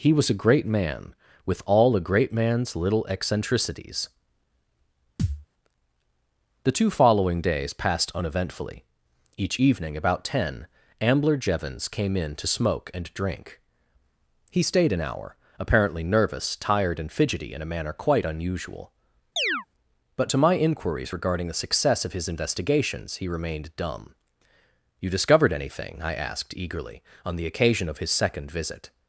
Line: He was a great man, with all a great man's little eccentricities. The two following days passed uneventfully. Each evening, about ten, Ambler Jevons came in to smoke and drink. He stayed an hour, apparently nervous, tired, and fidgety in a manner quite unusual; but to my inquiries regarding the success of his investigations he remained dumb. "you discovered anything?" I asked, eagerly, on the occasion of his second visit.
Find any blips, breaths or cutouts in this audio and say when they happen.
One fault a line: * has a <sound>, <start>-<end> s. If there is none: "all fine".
* has a thud, 5.2-5.5 s
* has a chirp, 19.4-19.7 s